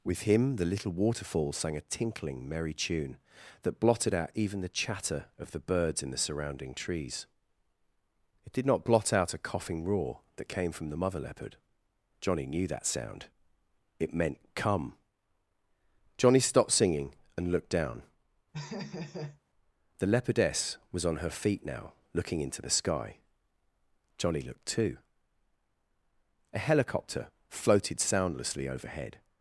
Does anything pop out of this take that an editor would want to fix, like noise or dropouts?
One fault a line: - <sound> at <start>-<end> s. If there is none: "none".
- laugh at 18.5-19.4 s